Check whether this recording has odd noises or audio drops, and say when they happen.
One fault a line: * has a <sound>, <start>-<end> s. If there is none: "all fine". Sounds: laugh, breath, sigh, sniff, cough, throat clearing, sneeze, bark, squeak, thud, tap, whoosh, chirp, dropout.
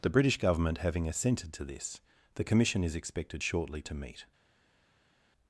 all fine